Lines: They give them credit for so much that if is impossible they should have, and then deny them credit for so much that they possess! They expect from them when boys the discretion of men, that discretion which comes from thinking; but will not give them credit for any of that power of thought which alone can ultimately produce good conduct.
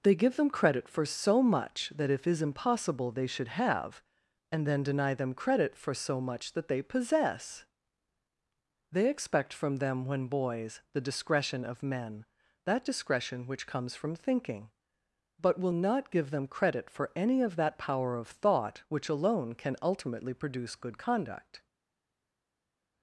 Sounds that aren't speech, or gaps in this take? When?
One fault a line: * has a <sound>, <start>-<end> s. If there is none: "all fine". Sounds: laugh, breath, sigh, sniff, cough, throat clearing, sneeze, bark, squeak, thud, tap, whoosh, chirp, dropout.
all fine